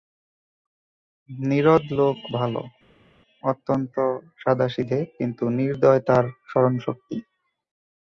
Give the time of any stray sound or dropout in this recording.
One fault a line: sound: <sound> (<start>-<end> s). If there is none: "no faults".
no faults